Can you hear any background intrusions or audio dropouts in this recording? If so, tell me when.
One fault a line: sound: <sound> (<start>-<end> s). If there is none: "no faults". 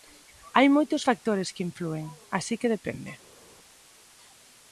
no faults